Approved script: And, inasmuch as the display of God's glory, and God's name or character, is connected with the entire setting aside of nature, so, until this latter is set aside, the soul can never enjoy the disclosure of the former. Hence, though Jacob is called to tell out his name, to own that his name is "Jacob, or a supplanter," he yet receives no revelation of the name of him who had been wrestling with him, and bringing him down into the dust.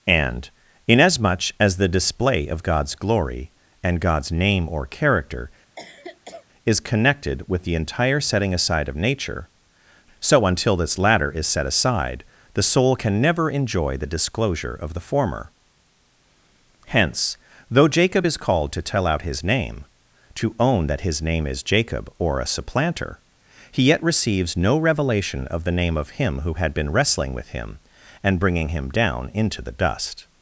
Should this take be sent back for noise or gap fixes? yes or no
yes